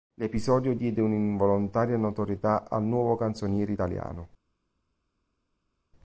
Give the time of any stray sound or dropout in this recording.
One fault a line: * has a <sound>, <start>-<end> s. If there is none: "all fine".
all fine